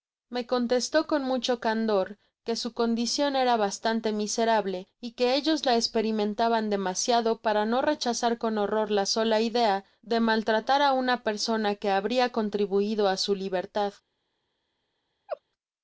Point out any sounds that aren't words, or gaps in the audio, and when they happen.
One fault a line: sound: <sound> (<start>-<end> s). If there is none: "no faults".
sound: laugh (15.3-15.4 s)